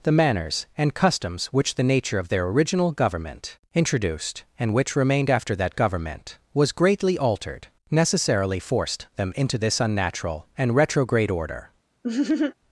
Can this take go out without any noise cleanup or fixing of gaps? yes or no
no